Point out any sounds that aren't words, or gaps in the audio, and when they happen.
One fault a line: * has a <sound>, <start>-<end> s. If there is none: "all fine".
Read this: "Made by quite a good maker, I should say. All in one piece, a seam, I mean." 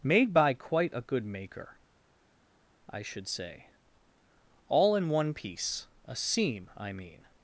all fine